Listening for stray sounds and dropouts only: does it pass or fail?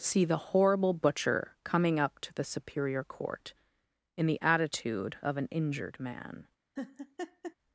fail